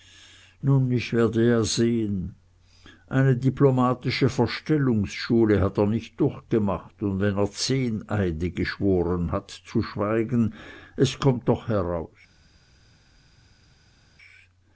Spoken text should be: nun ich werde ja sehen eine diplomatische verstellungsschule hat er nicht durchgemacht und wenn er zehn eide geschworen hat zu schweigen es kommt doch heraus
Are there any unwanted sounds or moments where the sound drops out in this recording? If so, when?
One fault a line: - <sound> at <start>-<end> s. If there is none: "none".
none